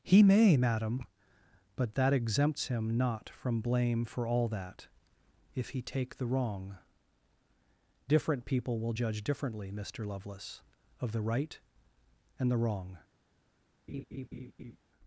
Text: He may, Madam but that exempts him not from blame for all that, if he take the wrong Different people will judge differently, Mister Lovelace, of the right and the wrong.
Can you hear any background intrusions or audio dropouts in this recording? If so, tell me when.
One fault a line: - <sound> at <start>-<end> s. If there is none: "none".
- laugh at 13.9-14.8 s